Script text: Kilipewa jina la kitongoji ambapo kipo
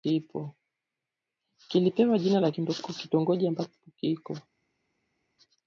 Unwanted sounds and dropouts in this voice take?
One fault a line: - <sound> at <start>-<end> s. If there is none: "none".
none